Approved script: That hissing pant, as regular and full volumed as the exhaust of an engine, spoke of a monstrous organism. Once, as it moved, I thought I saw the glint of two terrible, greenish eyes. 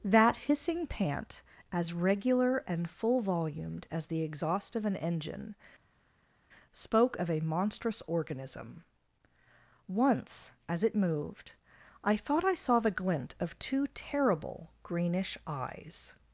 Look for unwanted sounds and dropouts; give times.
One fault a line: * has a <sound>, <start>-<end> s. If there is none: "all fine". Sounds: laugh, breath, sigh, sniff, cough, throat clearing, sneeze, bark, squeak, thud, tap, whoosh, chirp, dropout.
all fine